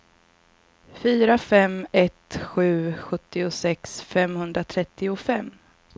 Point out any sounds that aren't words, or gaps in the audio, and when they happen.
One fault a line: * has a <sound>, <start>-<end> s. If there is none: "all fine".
all fine